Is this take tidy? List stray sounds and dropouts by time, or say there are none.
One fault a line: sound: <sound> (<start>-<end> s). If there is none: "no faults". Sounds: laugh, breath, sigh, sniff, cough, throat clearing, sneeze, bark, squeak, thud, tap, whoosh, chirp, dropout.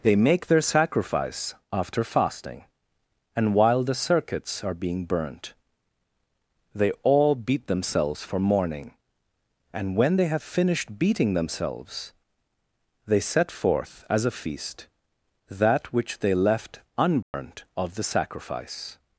sound: dropout (17.2-17.3 s)